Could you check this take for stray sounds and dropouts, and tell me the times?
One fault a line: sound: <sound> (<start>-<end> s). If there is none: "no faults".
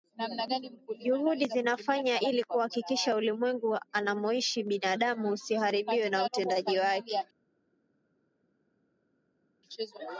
no faults